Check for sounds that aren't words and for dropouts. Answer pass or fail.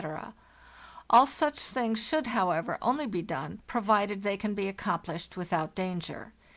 pass